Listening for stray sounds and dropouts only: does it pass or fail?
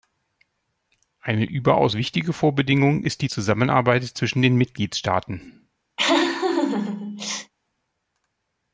fail